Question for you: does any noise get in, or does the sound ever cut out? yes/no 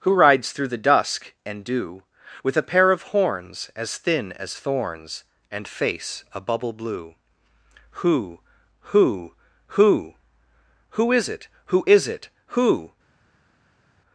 no